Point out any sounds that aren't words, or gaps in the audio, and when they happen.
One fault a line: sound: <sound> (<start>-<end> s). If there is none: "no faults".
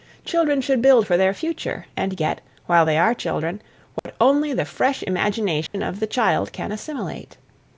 sound: dropout (4.0-4.1 s)
sound: dropout (5.7-5.7 s)